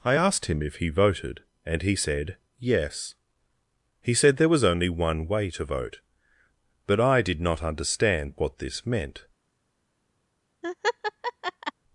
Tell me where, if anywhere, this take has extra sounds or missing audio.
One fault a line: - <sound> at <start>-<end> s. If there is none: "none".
- laugh at 10.6-11.7 s